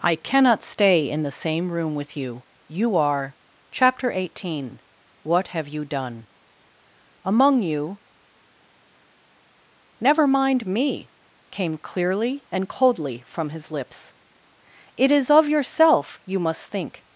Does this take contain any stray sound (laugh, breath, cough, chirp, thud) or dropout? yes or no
no